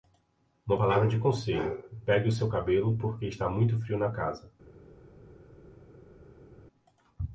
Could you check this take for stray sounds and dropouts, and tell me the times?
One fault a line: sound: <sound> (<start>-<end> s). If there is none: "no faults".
no faults